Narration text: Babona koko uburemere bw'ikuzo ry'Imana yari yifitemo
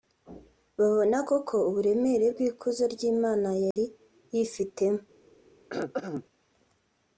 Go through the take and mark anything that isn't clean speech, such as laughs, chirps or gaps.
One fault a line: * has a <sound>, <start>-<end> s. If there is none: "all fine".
* has a dropout, 3.7-3.8 s
* has a throat clearing, 5.7-6.2 s